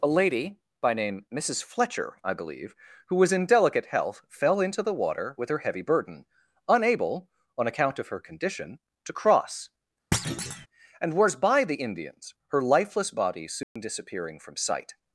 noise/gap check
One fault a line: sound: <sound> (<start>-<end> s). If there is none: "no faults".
sound: thud (10.1-10.7 s)
sound: dropout (13.6-13.8 s)